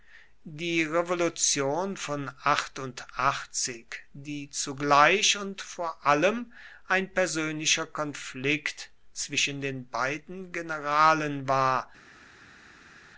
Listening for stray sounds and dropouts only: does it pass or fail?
pass